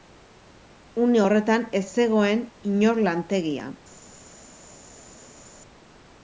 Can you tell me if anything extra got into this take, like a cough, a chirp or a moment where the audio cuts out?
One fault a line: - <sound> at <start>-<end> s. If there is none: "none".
none